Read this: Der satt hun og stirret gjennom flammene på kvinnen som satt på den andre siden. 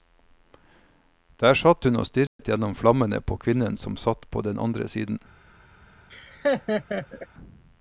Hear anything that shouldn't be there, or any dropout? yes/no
yes